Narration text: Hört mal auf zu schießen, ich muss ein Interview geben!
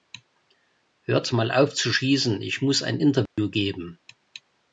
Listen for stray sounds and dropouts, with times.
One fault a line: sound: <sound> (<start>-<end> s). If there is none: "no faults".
sound: dropout (3.3-3.4 s)